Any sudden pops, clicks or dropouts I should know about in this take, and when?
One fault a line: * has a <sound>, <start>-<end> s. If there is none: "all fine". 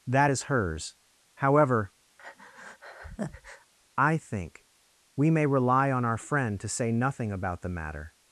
* has a breath, 2.2-3.7 s